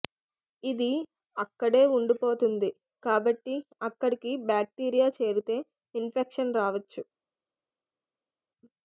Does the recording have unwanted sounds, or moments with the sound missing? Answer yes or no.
no